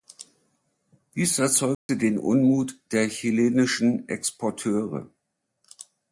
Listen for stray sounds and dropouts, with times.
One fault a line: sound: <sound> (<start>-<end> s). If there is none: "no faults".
sound: dropout (1.7-1.9 s)